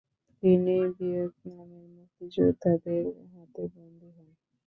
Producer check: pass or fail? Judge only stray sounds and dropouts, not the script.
pass